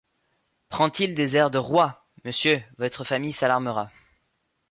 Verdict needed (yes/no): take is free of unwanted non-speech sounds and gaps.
yes